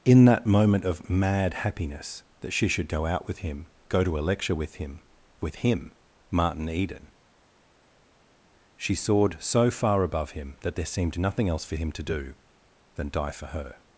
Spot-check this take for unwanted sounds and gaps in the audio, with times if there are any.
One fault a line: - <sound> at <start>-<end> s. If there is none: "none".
none